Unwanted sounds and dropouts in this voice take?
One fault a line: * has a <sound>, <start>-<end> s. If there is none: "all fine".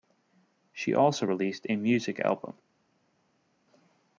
all fine